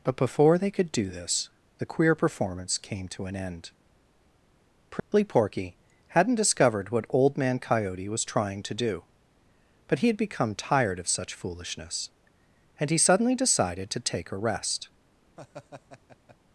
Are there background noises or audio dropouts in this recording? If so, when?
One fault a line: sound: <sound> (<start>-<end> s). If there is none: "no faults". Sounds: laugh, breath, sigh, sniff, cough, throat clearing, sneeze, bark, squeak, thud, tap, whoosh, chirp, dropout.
sound: dropout (5.0-5.1 s)
sound: laugh (15.4-16.4 s)